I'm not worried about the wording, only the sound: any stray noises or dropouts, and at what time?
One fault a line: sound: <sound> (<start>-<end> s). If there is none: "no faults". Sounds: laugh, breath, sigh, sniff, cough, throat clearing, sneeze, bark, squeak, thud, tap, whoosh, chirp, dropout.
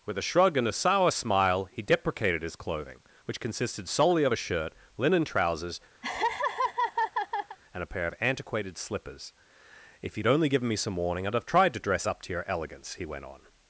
sound: laugh (6.0-7.6 s)